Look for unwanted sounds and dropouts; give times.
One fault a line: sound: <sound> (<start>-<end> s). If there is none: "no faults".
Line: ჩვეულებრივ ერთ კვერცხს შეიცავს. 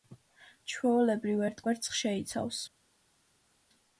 no faults